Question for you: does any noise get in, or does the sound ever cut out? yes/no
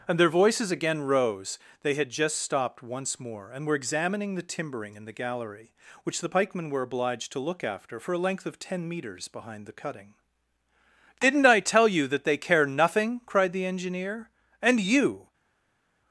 no